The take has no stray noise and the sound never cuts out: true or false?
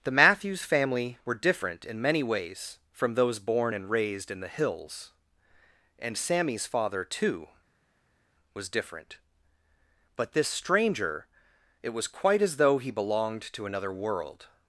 true